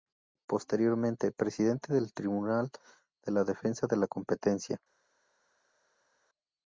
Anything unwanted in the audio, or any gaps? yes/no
no